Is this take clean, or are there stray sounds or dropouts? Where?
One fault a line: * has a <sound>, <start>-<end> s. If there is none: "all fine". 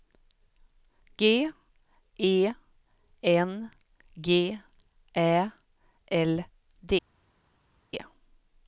all fine